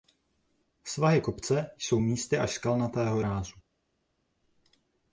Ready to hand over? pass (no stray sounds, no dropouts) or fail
pass